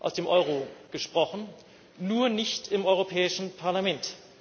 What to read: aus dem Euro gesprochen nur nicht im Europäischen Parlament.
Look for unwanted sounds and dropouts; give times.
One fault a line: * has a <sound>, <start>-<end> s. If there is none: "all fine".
all fine